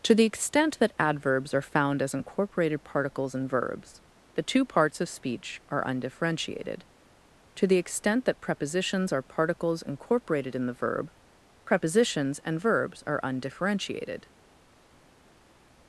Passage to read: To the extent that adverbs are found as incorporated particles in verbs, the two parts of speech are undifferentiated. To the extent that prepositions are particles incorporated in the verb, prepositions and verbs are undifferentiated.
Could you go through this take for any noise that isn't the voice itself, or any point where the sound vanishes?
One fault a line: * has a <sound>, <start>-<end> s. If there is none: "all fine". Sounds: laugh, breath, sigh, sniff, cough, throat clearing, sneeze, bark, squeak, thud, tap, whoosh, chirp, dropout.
all fine